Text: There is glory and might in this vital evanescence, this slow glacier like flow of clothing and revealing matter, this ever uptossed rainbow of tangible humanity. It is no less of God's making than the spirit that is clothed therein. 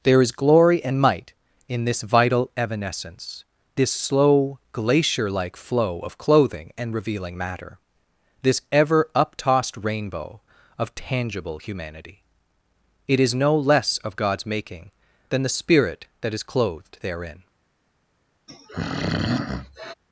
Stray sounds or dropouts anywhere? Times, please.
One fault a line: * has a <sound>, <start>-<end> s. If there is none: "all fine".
* has a throat clearing, 18.5-19.9 s